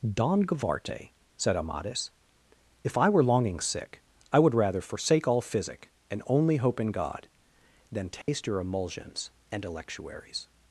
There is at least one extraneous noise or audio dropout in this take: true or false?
true